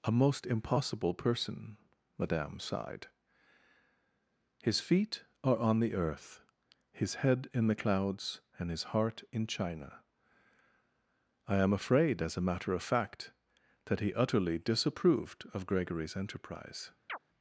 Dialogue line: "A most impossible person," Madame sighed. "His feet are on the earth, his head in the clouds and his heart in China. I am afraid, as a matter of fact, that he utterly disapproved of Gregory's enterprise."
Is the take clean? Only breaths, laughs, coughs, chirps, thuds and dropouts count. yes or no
no